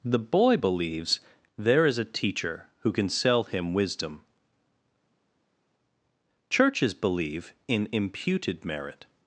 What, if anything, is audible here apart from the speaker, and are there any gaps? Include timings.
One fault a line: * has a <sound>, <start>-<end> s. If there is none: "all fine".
all fine